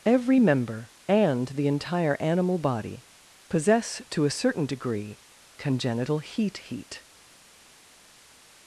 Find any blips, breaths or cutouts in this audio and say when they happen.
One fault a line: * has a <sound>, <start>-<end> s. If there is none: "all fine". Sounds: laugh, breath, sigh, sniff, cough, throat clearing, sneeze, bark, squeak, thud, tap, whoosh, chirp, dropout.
all fine